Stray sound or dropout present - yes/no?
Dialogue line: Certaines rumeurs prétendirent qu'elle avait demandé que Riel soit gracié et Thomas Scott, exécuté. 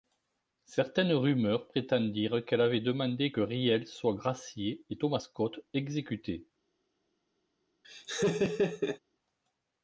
yes